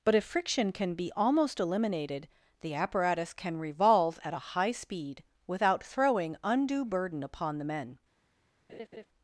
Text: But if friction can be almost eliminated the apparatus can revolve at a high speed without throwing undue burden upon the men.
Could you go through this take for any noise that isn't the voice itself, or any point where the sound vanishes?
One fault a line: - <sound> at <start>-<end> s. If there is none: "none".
- laugh at 8.7-9.1 s